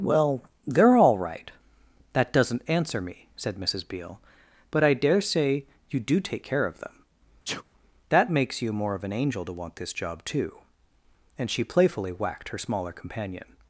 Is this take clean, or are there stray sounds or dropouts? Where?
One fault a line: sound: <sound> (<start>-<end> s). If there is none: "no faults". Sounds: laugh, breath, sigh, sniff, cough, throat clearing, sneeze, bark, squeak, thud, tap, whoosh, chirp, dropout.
sound: sneeze (7.4-7.6 s)